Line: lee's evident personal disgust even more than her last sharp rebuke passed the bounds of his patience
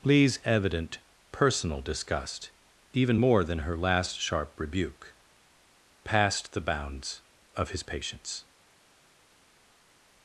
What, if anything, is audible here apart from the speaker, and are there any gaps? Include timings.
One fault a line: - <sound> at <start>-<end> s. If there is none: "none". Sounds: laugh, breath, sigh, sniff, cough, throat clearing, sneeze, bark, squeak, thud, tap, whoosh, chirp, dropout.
none